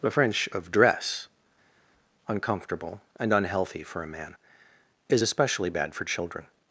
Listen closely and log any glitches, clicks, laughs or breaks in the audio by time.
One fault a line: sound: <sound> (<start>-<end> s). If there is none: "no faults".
no faults